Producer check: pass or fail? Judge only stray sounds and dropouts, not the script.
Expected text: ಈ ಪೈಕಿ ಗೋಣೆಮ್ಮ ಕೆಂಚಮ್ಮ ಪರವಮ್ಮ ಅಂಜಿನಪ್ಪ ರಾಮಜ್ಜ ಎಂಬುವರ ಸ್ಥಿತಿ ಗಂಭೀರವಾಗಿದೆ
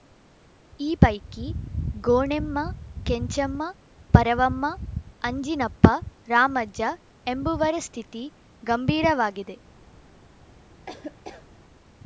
fail